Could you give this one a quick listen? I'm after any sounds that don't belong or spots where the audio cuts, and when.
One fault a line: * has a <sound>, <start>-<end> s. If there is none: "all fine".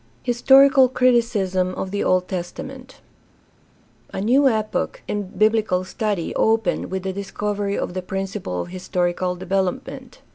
all fine